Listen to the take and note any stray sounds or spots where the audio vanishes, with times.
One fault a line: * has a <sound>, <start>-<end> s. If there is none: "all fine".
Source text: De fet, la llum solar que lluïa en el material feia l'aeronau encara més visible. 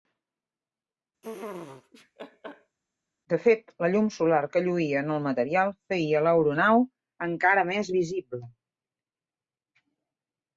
* has a laugh, 1.2-2.8 s